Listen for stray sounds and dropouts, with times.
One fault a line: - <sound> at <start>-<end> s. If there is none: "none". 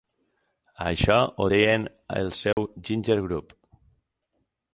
- dropout at 2.5-2.6 s